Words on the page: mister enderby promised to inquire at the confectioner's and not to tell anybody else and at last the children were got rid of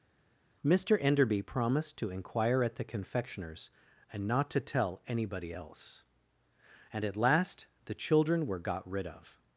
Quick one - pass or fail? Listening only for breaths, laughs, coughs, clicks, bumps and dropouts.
pass